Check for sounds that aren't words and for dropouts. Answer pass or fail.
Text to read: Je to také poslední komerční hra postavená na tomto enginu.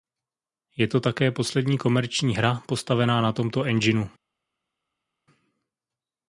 pass